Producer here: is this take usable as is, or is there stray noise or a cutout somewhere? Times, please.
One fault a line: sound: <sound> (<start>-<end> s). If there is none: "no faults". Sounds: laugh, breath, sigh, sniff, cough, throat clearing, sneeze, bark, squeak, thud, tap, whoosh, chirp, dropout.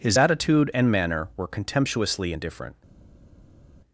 no faults